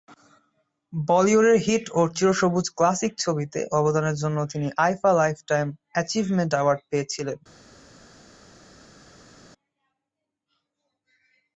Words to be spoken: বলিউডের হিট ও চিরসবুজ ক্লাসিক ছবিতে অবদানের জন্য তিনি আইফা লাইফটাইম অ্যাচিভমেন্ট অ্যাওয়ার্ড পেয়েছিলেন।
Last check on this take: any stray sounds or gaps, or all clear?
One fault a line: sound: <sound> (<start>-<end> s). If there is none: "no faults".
no faults